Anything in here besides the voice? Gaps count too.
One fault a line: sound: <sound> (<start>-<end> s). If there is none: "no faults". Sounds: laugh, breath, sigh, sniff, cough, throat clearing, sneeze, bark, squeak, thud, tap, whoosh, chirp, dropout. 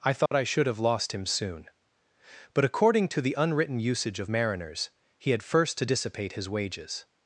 sound: dropout (0.3-0.3 s)